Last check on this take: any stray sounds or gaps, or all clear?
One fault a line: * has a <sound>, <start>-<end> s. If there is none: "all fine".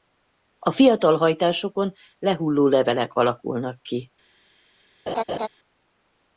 * has a laugh, 5.1-5.5 s